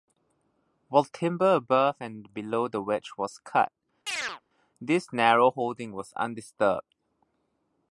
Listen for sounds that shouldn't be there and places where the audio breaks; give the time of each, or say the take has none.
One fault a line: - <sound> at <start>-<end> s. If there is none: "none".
- chirp at 4.1-4.4 s